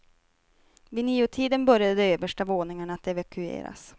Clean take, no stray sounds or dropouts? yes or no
yes